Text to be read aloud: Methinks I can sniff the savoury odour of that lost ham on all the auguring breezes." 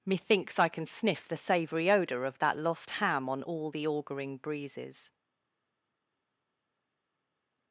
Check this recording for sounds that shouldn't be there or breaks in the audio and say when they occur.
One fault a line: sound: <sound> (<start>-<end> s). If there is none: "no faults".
no faults